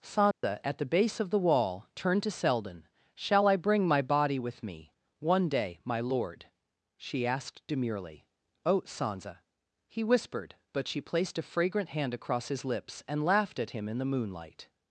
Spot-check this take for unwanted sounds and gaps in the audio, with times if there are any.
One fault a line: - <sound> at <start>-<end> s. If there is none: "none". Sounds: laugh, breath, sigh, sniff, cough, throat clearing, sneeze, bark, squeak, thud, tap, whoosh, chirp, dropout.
- dropout at 0.3-0.4 s